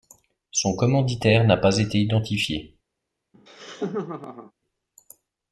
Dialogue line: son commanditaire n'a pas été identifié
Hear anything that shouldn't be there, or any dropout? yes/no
yes